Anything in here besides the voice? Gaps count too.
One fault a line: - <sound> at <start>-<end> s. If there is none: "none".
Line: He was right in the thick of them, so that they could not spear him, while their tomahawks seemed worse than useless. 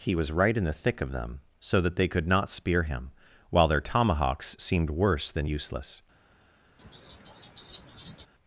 - laugh at 6.8-8.3 s